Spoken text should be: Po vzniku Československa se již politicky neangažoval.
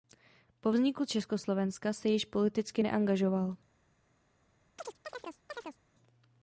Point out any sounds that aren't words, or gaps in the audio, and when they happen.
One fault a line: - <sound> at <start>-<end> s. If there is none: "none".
- chirp at 4.8-5.8 s